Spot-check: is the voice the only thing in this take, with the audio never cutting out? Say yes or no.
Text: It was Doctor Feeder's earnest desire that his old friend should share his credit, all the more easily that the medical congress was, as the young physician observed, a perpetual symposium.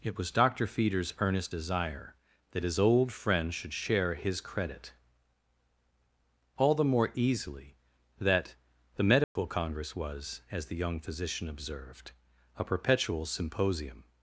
no